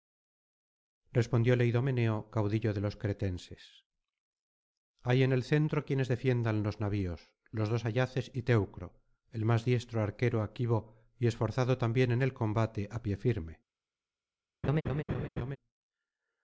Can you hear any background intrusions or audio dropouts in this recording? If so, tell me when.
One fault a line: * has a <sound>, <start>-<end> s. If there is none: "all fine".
* has a laugh, 14.6-15.6 s